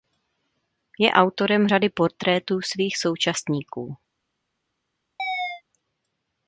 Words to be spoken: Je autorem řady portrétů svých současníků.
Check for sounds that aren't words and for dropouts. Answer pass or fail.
fail